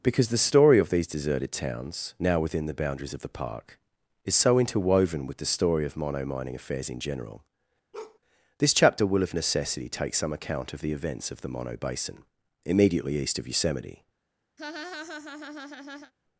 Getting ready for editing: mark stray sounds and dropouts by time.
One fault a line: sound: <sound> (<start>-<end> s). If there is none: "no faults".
sound: bark (7.9-8.2 s)
sound: laugh (14.6-16.1 s)